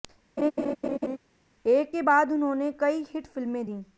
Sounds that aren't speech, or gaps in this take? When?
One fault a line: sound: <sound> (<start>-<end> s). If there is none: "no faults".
sound: laugh (0.4-1.2 s)